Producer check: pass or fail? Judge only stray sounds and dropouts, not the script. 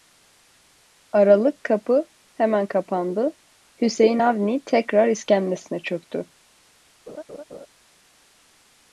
fail